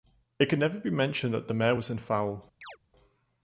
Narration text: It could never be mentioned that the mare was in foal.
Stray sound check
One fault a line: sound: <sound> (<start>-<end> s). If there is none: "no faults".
sound: chirp (2.6-2.8 s)